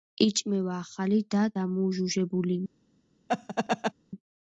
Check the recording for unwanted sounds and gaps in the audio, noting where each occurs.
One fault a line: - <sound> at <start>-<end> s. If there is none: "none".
- laugh at 3.3-3.9 s